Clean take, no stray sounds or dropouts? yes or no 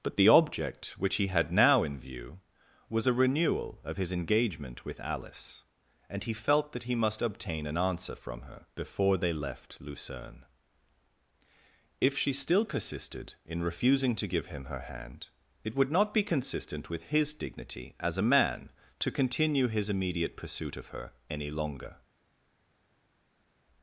yes